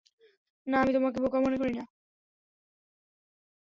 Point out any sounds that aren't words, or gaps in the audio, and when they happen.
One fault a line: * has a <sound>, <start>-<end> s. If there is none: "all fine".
all fine